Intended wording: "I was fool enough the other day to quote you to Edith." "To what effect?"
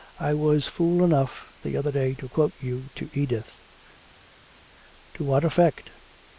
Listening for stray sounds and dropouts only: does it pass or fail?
pass